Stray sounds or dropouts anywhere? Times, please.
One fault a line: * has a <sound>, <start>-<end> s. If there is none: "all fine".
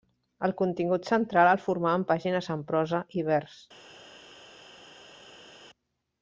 all fine